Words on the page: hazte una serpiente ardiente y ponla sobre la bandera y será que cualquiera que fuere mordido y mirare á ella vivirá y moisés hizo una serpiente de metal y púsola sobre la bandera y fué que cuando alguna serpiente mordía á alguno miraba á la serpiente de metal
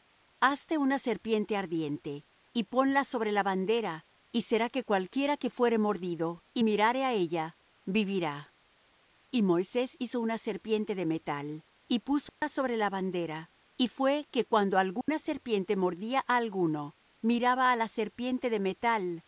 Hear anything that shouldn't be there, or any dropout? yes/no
yes